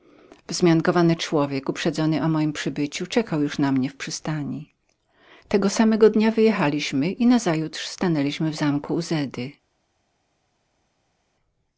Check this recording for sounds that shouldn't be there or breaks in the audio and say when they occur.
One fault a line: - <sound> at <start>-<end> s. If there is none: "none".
none